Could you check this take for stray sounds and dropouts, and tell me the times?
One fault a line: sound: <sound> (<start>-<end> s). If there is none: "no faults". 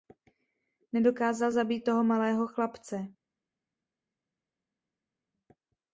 no faults